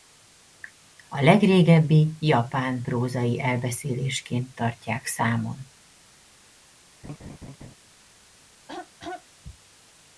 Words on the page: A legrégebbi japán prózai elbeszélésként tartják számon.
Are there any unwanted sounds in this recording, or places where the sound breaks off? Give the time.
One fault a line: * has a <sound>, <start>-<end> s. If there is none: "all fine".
* has a laugh, 7.0-7.7 s
* has a throat clearing, 8.7-9.3 s